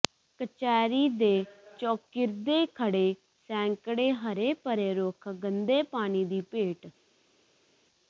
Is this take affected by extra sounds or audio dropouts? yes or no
no